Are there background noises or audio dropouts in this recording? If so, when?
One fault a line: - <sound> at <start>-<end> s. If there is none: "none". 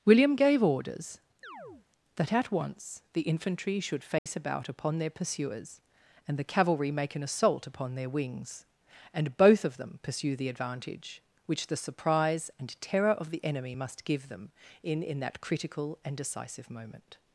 - chirp at 1.4-1.9 s
- dropout at 4.2-4.3 s